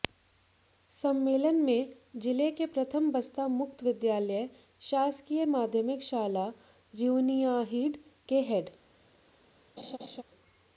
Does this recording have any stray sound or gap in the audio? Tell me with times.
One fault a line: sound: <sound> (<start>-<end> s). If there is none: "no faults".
sound: laugh (9.8-10.2 s)